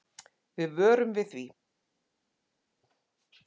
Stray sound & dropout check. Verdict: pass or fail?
pass